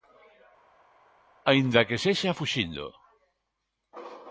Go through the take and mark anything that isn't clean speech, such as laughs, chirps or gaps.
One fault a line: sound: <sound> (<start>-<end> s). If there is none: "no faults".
no faults